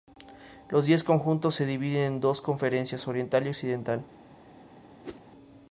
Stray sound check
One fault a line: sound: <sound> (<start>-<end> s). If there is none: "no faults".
sound: whoosh (5.0-5.2 s)